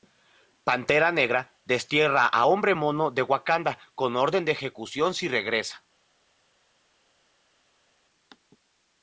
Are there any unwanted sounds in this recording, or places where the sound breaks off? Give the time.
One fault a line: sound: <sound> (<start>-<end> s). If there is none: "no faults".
no faults